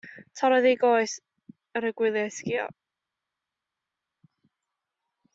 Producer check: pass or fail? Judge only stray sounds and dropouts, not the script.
pass